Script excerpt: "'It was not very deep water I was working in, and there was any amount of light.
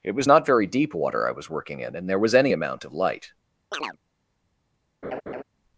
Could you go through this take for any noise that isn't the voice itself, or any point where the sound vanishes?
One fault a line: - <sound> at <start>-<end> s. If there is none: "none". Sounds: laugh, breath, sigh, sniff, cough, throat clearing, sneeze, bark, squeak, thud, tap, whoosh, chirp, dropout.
- chirp at 3.7-4.0 s
- laugh at 5.0-5.4 s